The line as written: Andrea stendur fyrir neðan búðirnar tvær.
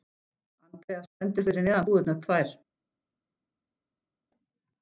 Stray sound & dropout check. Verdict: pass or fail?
pass